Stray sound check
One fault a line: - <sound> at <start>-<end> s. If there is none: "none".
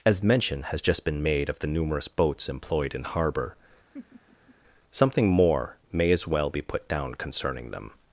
- laugh at 3.9-4.6 s